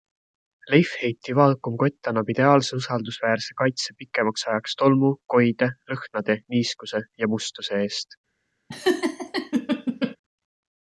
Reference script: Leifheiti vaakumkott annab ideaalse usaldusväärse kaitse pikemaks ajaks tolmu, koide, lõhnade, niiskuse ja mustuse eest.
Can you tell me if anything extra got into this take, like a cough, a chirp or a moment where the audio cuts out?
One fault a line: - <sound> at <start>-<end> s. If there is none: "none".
- laugh at 8.7-10.2 s